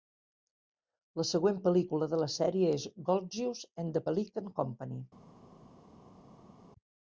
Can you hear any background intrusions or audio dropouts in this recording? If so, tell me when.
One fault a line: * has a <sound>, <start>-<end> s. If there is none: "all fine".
all fine